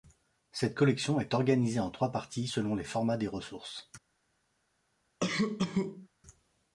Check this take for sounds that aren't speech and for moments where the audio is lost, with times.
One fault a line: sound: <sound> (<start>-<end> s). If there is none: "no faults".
sound: cough (5.2-6.1 s)